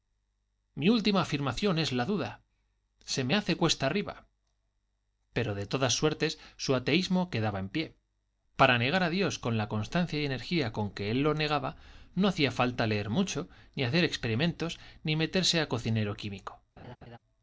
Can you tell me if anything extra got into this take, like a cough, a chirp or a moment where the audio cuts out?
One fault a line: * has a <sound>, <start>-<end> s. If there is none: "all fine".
* has a laugh, 16.8-17.2 s